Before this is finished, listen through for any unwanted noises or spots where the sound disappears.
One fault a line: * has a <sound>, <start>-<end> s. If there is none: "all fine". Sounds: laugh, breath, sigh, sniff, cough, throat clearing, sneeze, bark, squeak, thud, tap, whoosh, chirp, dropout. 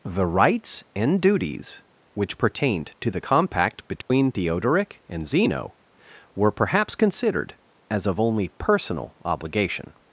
* has a dropout, 4.0-4.1 s